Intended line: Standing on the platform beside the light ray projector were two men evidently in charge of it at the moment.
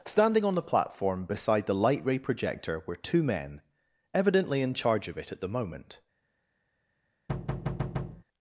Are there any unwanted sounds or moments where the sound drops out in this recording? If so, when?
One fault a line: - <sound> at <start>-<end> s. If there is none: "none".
- thud at 7.3-8.2 s